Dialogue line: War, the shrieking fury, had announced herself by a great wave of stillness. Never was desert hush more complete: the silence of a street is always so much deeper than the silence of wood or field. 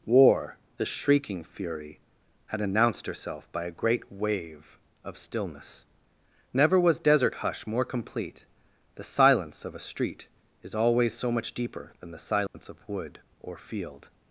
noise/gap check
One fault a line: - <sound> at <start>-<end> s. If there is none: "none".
- dropout at 12.5-12.5 s